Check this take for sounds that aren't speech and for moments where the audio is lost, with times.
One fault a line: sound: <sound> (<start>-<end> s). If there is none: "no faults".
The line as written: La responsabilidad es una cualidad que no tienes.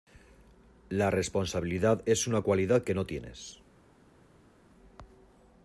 no faults